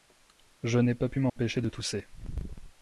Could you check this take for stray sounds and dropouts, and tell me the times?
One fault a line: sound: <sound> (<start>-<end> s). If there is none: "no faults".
sound: dropout (1.3-1.4 s)